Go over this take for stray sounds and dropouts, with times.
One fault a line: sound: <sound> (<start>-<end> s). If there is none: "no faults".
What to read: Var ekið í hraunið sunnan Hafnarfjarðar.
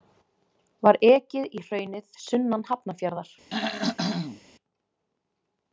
sound: throat clearing (3.5-4.4 s)